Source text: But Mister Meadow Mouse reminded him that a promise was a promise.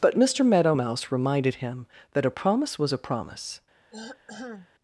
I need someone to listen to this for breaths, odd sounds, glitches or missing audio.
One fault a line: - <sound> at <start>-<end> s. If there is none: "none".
- throat clearing at 3.9-4.7 s